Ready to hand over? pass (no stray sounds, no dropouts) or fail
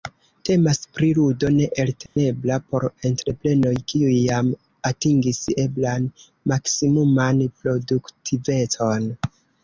fail